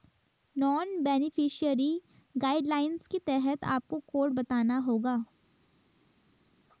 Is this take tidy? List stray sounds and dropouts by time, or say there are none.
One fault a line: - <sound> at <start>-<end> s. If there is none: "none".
none